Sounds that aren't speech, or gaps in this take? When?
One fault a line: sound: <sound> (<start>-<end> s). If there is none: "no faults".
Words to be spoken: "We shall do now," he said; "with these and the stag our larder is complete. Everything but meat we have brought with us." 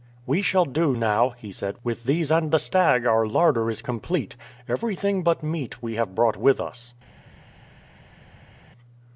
no faults